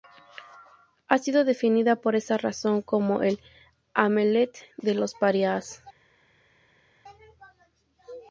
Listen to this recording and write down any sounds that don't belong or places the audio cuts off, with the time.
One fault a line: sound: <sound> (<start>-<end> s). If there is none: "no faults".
no faults